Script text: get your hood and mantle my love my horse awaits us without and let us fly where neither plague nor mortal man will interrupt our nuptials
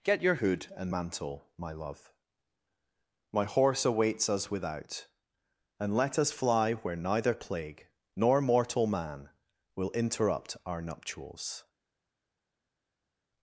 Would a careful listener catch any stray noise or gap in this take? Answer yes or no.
no